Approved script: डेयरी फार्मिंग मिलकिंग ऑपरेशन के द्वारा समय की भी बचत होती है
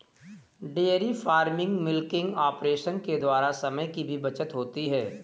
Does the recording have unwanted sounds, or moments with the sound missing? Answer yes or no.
no